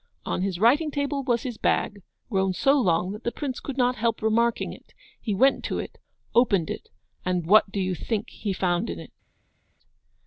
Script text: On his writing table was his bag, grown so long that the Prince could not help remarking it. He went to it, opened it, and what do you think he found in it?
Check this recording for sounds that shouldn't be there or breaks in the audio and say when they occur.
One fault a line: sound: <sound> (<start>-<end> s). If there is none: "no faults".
no faults